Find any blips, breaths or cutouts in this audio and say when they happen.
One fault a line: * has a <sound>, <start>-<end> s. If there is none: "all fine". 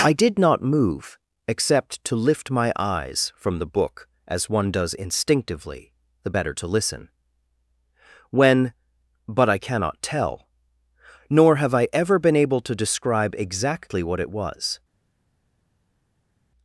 all fine